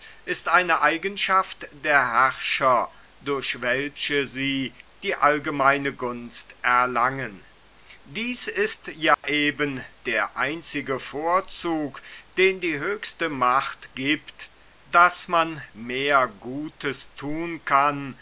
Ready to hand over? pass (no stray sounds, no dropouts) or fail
fail